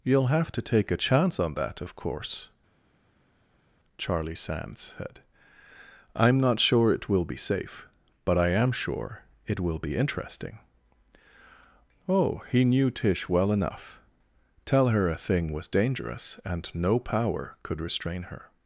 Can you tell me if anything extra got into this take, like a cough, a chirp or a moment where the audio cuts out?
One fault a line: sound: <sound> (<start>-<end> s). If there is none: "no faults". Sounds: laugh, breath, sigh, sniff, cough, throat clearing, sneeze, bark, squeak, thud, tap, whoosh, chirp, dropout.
no faults